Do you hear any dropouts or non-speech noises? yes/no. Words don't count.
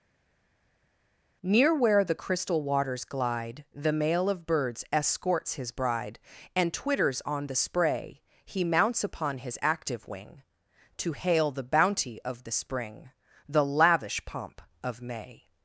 no